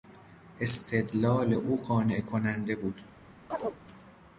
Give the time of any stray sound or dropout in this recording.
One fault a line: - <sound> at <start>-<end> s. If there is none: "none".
- chirp at 3.5-3.8 s